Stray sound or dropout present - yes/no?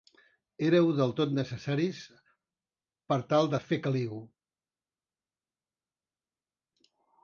no